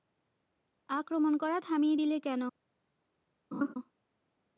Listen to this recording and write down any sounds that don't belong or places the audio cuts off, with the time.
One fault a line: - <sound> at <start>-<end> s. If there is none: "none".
- laugh at 3.5-3.7 s